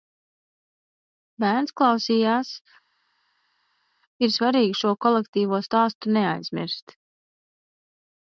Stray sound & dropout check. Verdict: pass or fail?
pass